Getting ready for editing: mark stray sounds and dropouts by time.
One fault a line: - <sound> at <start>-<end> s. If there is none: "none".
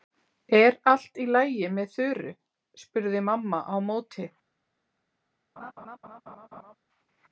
- laugh at 5.6-6.8 s